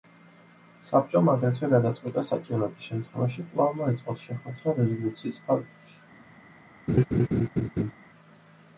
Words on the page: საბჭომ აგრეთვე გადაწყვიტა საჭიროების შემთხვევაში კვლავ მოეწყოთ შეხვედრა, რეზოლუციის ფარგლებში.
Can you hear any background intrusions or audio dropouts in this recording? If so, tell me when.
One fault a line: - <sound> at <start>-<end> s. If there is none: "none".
- laugh at 6.9-7.9 s